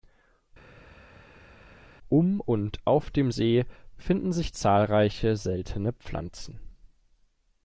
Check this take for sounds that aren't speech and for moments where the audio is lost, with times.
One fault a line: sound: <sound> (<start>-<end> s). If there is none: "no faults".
no faults